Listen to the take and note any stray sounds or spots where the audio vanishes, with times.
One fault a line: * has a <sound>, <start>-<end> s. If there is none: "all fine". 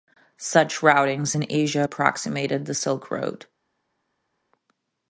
all fine